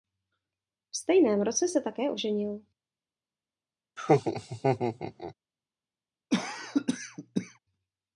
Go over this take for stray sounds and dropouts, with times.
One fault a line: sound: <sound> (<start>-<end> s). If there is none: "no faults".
sound: laugh (4.0-5.3 s)
sound: cough (6.3-7.6 s)